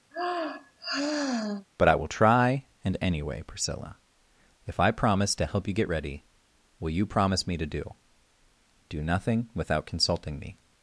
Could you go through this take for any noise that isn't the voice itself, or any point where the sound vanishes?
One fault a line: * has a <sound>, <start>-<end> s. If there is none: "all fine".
* has a sigh, 0.1-1.7 s